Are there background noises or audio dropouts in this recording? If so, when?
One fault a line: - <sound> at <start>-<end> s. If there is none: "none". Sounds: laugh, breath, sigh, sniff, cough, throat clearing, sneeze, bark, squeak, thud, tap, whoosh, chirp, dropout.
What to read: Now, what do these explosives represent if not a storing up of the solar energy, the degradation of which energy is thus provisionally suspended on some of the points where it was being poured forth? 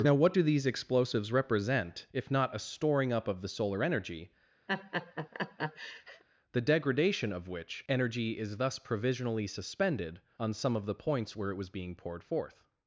- laugh at 4.7-6.2 s